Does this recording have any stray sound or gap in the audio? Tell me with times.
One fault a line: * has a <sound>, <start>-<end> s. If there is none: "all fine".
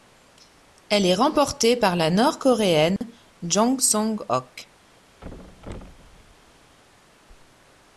* has a dropout, 3.0-3.0 s
* has a thud, 5.2-6.8 s